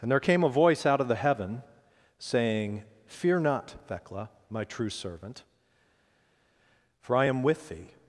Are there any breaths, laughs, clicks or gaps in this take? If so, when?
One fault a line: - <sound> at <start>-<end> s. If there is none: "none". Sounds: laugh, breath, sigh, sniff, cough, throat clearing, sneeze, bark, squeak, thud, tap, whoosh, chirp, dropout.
none